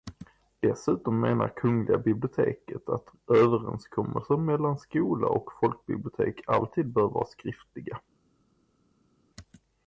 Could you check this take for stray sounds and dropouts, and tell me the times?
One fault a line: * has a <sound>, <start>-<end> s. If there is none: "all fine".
all fine